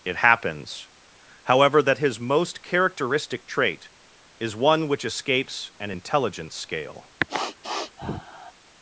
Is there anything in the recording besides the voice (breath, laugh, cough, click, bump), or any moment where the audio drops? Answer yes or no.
yes